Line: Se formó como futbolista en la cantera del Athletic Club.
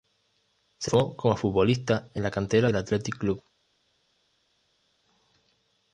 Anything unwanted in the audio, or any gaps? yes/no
no